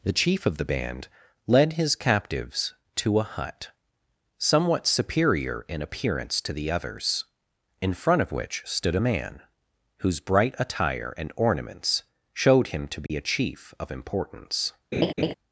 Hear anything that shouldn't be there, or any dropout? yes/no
yes